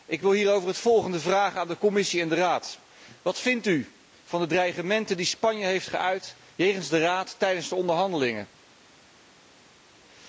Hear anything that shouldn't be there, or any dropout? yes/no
no